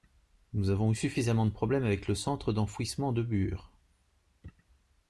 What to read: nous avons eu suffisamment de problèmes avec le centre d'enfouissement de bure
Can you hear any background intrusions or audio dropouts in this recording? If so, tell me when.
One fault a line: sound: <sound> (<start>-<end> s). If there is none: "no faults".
no faults